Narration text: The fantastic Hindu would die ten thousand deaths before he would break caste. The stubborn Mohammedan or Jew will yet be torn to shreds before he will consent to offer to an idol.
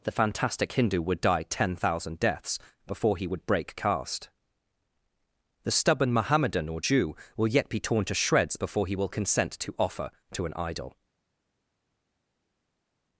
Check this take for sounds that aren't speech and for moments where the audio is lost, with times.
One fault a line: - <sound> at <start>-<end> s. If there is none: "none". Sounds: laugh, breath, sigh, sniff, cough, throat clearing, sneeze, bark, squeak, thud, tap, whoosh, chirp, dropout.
none